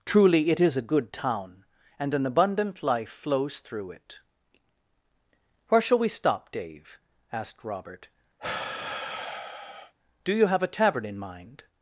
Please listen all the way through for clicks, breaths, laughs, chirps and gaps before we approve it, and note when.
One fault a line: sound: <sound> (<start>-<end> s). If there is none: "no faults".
sound: sigh (8.4-9.9 s)